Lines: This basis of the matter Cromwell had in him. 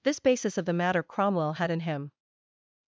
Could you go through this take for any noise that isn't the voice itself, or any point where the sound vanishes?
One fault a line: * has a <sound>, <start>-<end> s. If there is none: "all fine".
all fine